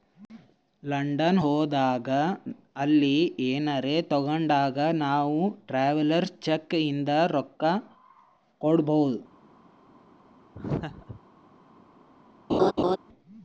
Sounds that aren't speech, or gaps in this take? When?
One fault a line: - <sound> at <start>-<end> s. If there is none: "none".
- laugh at 10.5-11.2 s
- laugh at 12.5-13.0 s